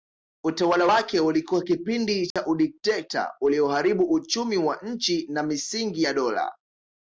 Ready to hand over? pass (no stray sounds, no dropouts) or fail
fail